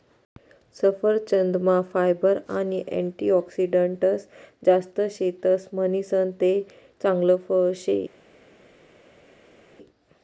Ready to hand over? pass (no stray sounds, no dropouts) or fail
pass